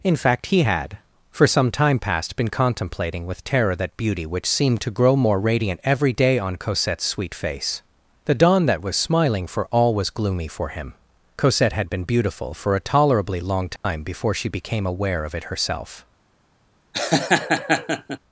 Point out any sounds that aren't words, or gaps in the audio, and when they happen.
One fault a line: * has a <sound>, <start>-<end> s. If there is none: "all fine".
* has a dropout, 13.8-13.8 s
* has a laugh, 16.9-18.2 s